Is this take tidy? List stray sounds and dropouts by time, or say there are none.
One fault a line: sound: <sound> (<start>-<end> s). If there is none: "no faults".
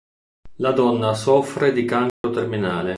sound: dropout (2.1-2.2 s)